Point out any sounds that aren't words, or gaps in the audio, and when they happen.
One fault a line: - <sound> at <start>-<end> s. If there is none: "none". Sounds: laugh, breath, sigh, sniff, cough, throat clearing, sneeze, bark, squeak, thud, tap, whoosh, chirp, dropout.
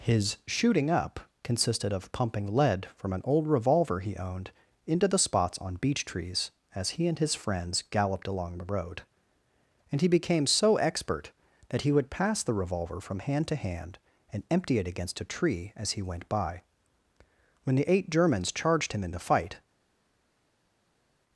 none